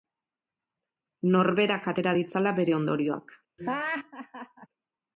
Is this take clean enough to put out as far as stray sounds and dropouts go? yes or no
no